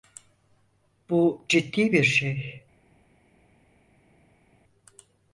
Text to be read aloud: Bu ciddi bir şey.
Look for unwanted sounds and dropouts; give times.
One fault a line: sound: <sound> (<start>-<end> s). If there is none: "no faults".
no faults